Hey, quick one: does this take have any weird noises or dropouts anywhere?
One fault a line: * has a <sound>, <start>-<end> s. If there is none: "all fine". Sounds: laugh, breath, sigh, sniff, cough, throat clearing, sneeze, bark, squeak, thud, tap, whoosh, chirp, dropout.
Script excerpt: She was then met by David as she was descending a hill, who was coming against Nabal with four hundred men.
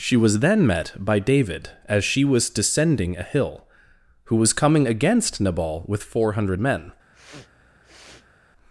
* has a sniff, 7.1-8.3 s